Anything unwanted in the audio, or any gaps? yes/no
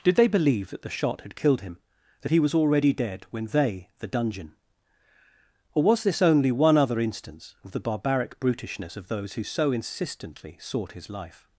no